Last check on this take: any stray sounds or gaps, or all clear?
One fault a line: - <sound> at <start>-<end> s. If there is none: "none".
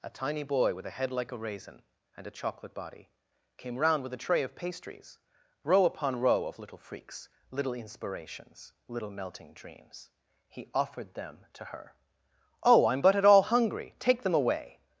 none